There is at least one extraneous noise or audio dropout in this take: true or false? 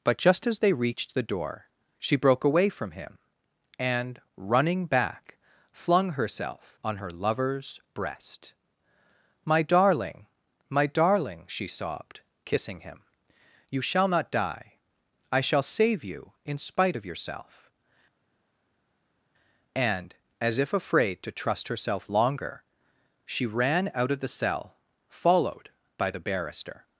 false